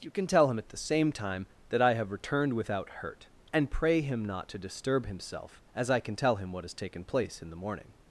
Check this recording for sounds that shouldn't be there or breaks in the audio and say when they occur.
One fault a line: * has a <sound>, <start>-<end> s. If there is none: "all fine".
all fine